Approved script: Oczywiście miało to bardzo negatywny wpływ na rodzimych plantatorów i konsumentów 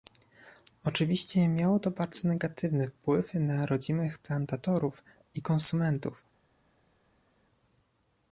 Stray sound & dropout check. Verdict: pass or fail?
pass